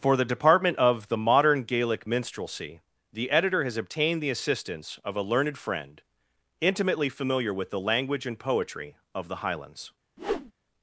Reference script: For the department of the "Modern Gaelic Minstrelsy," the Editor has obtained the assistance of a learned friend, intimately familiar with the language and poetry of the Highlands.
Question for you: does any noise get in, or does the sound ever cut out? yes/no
yes